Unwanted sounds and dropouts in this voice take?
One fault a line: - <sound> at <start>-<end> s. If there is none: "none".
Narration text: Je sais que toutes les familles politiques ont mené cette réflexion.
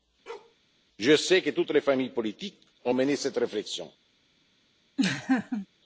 - bark at 0.3-0.6 s
- laugh at 5.0-5.7 s